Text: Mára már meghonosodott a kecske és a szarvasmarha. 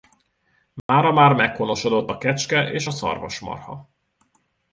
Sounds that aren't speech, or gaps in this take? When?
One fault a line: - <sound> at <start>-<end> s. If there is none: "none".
- dropout at 0.8-0.9 s